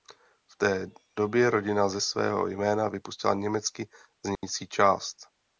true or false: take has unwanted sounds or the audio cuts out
true